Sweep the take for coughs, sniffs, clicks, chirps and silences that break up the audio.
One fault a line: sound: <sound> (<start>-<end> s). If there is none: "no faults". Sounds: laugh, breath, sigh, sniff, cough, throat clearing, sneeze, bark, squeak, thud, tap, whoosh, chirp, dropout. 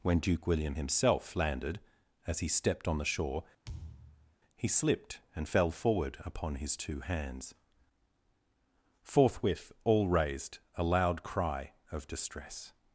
sound: thud (3.6-4.4 s)